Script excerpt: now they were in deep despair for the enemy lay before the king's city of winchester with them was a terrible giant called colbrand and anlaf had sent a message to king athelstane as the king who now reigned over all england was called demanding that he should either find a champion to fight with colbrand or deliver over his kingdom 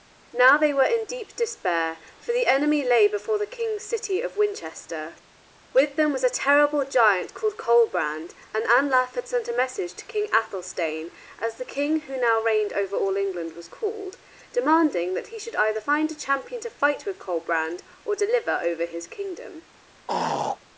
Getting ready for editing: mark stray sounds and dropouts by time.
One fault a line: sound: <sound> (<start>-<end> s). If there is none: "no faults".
sound: throat clearing (20.1-20.6 s)